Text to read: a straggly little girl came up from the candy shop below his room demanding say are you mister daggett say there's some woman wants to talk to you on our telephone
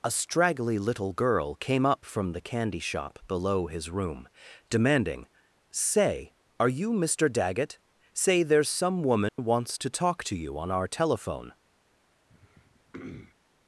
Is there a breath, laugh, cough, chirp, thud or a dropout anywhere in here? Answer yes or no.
yes